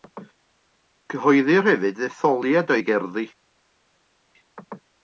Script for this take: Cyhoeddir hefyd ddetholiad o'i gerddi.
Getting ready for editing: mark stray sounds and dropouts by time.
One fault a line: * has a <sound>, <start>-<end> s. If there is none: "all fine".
all fine